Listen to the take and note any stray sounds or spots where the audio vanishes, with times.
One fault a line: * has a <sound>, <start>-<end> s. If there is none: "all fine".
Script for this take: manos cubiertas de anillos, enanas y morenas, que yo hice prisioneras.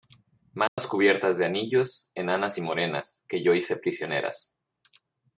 * has a dropout, 0.7-0.8 s